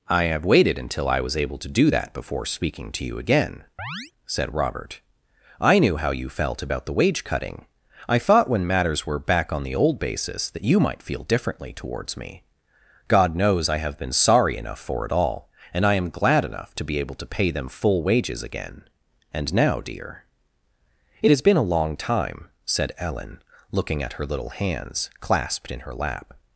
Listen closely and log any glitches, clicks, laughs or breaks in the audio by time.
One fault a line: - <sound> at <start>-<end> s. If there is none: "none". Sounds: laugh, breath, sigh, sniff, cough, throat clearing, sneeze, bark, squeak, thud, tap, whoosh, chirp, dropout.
- chirp at 3.8-4.1 s